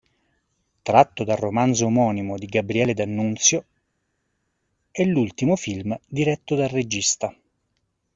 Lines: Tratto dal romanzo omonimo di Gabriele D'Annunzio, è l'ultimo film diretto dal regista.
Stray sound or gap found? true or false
false